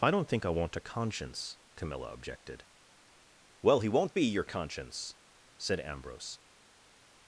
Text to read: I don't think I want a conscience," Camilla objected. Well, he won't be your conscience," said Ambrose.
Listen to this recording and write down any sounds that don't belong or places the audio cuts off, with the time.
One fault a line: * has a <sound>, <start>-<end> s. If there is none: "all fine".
all fine